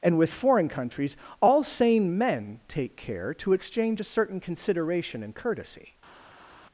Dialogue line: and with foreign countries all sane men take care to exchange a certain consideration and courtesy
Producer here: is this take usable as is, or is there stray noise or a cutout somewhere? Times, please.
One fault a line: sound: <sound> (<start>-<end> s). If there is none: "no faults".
no faults